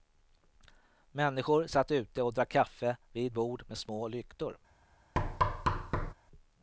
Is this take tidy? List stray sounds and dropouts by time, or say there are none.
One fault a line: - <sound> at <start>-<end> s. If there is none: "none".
- thud at 5.2-6.1 s